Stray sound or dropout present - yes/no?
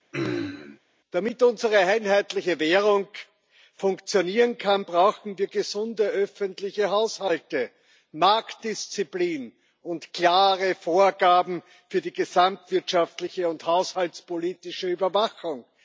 yes